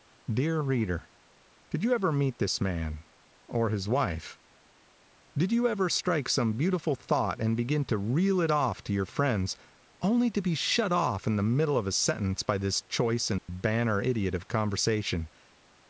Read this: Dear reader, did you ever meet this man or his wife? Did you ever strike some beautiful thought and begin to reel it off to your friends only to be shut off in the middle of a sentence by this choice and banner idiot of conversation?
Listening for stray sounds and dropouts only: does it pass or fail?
fail